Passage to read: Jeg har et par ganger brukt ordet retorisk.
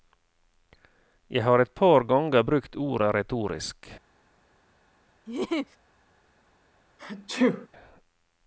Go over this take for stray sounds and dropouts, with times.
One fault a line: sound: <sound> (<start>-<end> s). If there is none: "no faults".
sound: laugh (5.3-5.8 s)
sound: sneeze (7.0-7.7 s)